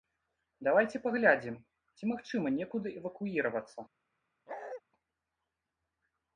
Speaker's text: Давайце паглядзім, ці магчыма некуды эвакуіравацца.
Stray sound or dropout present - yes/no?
yes